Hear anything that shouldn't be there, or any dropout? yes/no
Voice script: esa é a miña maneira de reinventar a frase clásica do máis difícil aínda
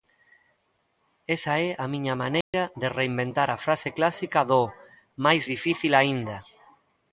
yes